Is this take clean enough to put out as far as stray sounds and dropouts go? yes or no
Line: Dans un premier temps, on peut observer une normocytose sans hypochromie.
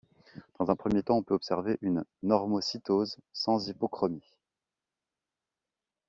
yes